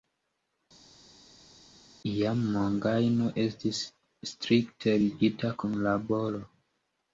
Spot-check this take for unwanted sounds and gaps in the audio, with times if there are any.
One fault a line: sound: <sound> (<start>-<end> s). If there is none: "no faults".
no faults